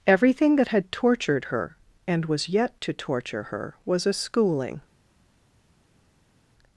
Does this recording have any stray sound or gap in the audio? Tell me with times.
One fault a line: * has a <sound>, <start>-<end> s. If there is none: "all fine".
all fine